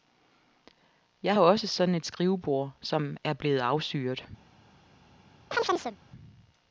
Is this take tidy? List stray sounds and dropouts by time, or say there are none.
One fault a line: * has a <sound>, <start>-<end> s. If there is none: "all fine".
* has a chirp, 5.5-6.0 s